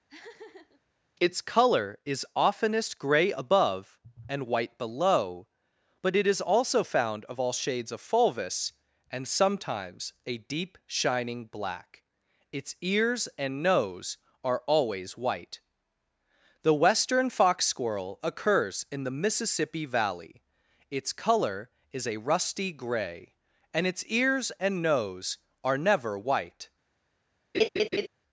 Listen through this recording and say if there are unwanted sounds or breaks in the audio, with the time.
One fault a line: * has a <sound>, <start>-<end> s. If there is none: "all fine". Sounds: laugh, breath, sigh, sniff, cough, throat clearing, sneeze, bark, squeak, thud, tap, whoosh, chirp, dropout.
* has a laugh, 0.1-0.8 s
* has a laugh, 27.5-28.1 s